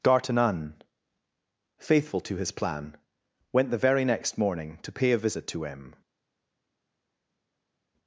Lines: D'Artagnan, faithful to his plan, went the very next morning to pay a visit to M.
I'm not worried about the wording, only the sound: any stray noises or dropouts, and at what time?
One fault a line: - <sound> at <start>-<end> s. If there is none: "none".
none